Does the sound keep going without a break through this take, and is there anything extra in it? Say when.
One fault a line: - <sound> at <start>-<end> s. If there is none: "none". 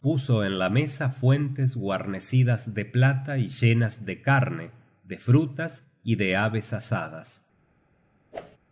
- whoosh at 8.3-8.6 s